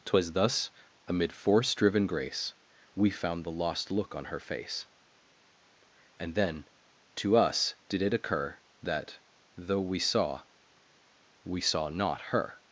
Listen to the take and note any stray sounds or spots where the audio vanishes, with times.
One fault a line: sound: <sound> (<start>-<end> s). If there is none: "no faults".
no faults